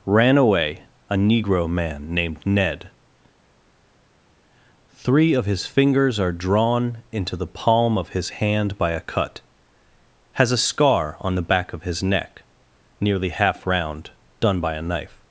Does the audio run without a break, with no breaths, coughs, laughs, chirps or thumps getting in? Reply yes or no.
yes